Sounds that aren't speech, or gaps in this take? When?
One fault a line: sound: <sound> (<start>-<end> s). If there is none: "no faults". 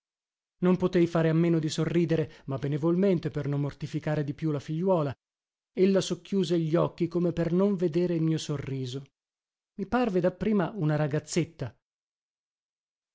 no faults